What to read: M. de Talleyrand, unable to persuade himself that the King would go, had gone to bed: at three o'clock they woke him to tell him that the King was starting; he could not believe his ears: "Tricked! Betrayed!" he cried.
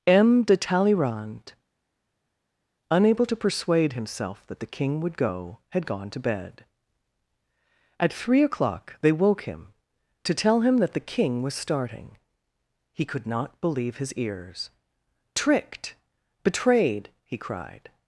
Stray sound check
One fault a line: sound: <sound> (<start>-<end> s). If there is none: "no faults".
no faults